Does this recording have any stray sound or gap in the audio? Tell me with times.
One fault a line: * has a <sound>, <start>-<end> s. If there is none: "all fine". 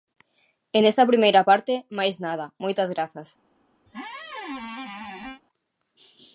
* has a squeak, 3.9-5.4 s